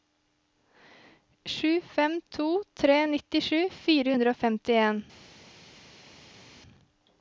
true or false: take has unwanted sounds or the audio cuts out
false